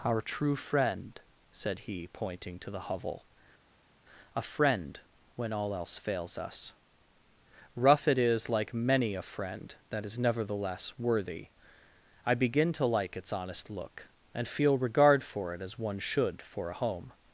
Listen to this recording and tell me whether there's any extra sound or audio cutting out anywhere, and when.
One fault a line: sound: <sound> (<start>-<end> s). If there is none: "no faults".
no faults